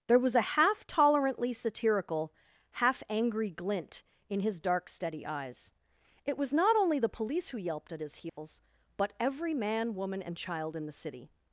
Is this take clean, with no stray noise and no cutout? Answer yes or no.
no